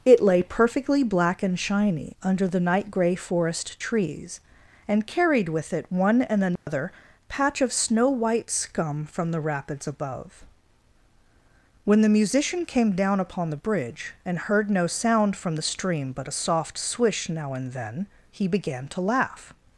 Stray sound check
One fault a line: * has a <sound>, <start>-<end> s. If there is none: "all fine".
* has a dropout, 6.6-6.7 s